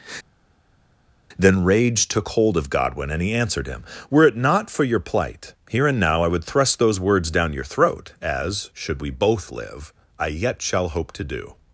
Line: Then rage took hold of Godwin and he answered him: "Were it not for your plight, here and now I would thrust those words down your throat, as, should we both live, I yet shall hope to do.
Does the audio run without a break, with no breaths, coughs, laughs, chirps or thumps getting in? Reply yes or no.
yes